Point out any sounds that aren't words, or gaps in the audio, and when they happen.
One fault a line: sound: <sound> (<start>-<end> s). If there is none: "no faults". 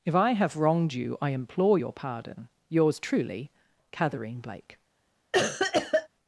sound: cough (5.3-6.1 s)